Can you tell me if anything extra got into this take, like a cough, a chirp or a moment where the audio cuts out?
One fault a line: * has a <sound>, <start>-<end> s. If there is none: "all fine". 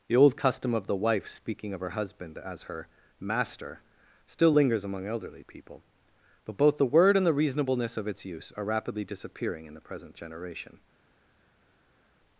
all fine